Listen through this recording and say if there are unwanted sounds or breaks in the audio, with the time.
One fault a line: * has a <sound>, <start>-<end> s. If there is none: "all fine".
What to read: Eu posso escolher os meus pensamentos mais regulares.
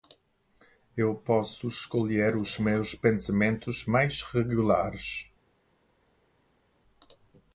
all fine